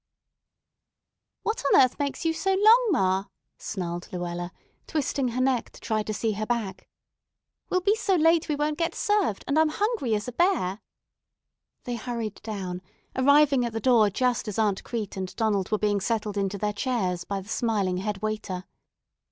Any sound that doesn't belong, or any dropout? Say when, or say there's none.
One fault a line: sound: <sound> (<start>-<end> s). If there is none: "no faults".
no faults